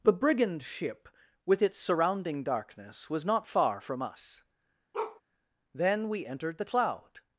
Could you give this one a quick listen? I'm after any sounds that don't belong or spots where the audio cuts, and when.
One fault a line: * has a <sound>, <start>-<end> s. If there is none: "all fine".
* has a bark, 4.9-5.2 s